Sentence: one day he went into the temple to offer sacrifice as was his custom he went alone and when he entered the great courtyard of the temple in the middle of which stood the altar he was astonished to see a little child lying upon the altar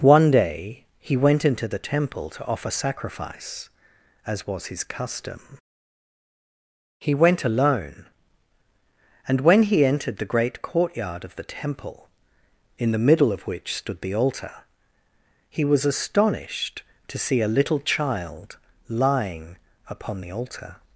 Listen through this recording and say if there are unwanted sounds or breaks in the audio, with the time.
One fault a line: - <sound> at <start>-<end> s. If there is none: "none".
none